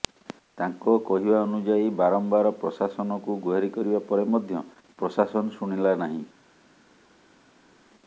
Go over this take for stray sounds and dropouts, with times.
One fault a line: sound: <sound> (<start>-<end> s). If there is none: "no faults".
no faults